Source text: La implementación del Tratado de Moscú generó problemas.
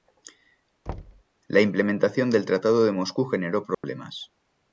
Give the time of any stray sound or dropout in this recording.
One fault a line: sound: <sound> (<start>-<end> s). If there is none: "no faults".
sound: thud (0.9-1.2 s)
sound: dropout (3.7-3.8 s)